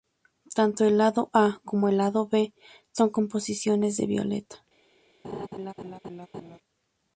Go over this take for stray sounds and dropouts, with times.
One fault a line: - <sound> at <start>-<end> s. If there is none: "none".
- laugh at 5.2-6.6 s